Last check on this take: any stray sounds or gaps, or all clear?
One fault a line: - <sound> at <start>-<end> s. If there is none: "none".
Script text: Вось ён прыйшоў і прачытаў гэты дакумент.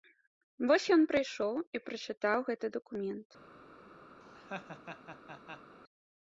- laugh at 4.2-5.8 s